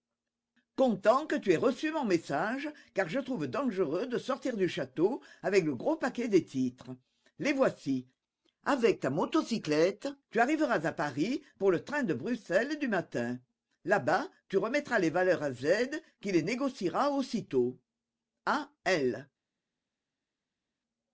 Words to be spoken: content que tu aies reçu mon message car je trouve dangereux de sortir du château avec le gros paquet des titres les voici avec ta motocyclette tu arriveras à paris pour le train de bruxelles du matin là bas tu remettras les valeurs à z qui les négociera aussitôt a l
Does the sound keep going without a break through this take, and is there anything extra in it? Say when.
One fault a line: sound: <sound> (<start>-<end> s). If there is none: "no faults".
no faults